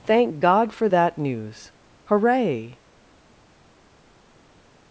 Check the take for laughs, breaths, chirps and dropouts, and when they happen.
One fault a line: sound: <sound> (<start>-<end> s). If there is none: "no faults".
no faults